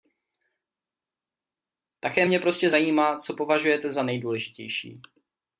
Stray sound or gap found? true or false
false